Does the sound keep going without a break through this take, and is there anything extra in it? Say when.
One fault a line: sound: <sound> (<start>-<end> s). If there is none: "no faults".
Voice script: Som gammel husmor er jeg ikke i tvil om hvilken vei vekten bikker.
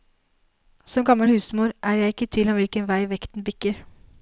no faults